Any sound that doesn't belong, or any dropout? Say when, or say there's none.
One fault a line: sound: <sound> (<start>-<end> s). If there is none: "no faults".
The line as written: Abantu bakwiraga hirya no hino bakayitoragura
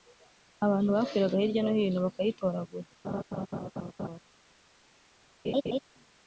sound: laugh (3.0-4.2 s)
sound: laugh (5.4-5.8 s)